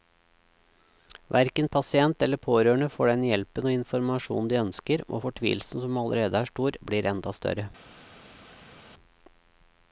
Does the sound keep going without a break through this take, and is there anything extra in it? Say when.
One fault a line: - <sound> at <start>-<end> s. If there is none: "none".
none